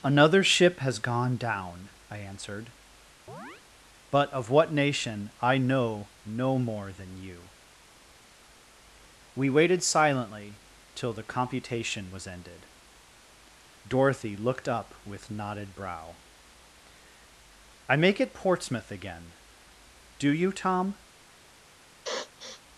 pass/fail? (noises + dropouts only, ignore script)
fail